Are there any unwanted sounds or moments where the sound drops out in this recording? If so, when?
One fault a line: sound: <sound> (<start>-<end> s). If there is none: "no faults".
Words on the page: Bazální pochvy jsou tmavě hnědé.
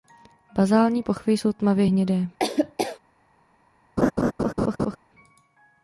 sound: laugh (2.4-3.0 s)
sound: laugh (4.0-5.0 s)